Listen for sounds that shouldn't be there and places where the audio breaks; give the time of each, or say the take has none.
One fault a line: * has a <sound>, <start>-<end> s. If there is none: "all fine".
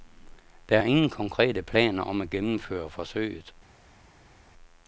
all fine